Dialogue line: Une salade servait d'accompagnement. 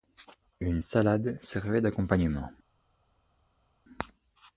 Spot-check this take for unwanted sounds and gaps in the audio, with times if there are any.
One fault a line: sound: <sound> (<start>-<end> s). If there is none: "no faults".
no faults